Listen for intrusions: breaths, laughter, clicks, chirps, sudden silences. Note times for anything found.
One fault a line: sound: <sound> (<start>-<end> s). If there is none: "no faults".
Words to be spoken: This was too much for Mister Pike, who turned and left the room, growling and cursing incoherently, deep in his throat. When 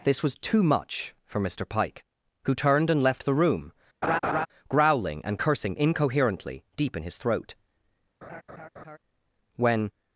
sound: laugh (4.0-4.5 s)
sound: laugh (8.2-9.0 s)